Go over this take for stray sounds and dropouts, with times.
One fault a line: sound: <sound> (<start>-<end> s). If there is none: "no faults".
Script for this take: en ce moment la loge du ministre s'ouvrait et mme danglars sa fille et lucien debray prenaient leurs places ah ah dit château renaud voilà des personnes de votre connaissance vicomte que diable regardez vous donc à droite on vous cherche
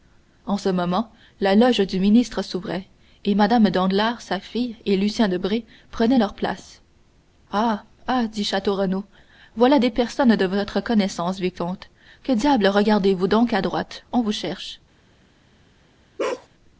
sound: bark (16.2-16.5 s)